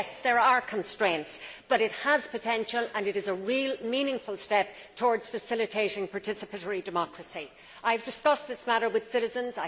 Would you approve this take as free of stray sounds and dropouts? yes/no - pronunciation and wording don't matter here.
yes